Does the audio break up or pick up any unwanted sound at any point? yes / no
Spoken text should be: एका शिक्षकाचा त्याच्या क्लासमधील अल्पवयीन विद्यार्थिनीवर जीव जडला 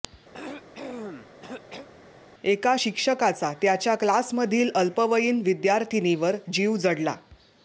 yes